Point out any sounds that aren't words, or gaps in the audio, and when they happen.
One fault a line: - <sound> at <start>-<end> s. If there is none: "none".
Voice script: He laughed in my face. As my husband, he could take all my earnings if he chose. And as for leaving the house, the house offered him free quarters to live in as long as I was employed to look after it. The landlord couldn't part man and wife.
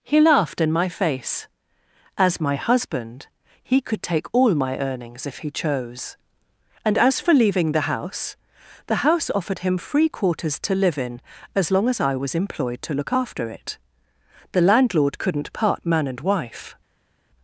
none